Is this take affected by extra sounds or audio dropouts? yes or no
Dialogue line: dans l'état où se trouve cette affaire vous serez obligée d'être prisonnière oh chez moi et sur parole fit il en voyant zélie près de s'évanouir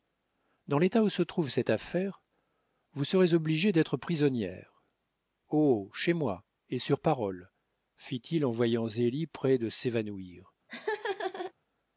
yes